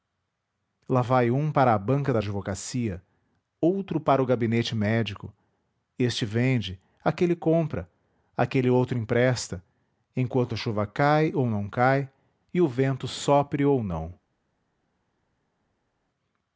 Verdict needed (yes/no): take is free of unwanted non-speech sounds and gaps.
yes